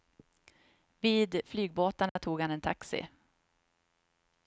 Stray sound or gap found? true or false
true